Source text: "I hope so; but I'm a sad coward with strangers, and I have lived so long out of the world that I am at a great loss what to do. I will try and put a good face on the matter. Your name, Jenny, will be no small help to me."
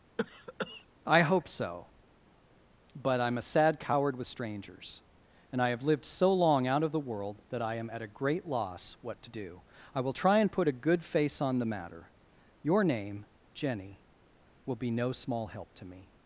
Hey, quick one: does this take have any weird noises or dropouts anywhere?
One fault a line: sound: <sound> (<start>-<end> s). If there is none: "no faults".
sound: cough (0.2-0.9 s)